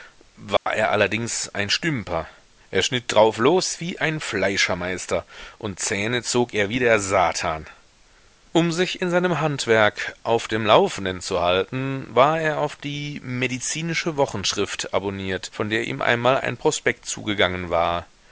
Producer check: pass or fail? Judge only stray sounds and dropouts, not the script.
fail